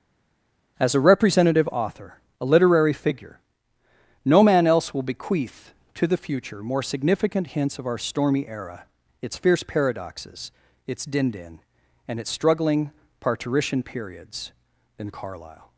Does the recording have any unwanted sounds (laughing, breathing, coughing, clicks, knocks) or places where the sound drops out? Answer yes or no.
no